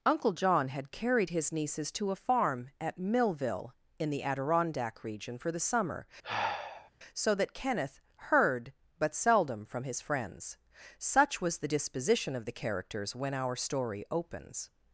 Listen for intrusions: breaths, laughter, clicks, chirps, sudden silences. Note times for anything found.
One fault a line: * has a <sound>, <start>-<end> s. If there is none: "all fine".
* has a sigh, 6.2-6.9 s